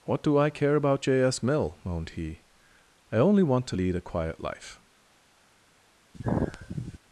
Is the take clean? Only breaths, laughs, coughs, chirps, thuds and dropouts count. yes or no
no